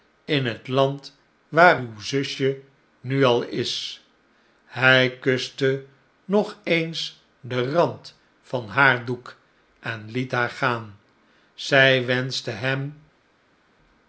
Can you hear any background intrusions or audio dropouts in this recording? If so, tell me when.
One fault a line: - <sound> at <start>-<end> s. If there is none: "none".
none